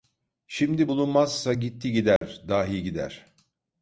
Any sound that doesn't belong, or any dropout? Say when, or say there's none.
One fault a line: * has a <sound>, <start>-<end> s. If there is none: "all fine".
* has a dropout, 2.2-2.2 s